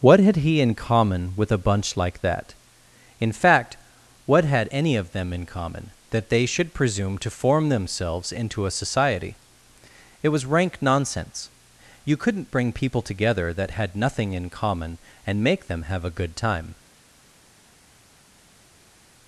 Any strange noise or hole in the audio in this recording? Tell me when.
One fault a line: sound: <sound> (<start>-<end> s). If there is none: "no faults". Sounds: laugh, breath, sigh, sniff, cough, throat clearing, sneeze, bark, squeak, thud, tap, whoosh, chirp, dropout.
no faults